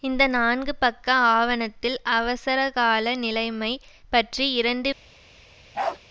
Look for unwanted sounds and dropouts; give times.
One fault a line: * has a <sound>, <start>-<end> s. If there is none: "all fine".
* has a bark, 5.7-6.0 s